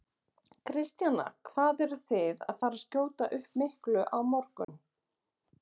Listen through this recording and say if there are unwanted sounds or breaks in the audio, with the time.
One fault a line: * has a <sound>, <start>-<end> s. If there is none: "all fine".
* has a dropout, 4.6-4.7 s